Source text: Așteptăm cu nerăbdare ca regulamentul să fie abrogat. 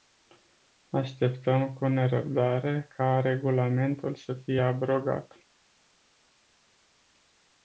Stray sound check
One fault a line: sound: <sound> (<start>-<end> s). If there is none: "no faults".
no faults